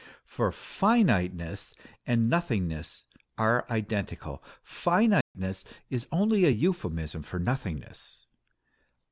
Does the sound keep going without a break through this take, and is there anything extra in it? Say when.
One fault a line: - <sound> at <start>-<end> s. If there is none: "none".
- dropout at 5.2-5.3 s